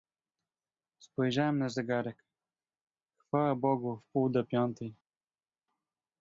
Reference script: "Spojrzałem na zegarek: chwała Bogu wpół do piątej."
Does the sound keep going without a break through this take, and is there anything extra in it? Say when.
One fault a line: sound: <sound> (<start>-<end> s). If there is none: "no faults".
no faults